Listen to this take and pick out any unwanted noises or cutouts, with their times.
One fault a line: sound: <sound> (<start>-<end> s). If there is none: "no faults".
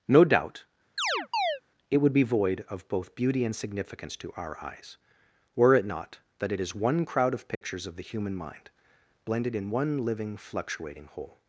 sound: chirp (1.0-1.6 s)
sound: dropout (7.5-7.6 s)